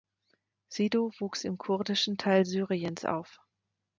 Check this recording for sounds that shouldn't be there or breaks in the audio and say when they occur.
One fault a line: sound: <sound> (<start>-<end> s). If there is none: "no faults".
no faults